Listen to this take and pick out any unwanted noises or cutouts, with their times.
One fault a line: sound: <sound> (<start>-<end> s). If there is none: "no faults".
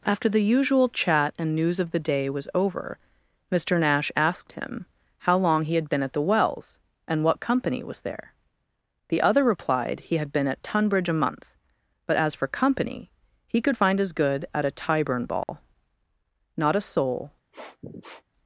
sound: dropout (15.4-15.5 s)
sound: sniff (17.5-18.2 s)